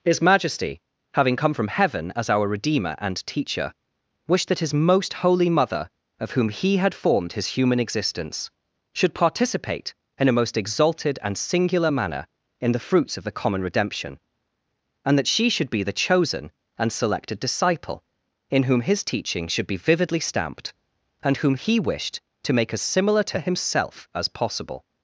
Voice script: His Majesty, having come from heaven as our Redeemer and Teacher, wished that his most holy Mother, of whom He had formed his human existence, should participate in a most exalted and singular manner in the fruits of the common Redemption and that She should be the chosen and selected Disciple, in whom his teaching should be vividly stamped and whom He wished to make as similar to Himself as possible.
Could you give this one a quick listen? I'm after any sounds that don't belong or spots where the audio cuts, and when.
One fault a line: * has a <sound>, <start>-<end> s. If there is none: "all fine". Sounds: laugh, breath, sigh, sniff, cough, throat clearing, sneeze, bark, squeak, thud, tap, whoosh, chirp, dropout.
all fine